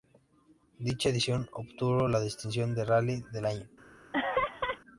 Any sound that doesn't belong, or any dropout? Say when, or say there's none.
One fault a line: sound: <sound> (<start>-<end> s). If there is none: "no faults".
sound: laugh (4.1-4.8 s)